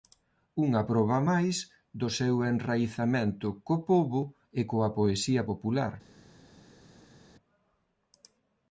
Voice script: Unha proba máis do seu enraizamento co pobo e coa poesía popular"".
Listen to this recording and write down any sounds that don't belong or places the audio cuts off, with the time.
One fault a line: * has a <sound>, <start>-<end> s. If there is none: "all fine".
all fine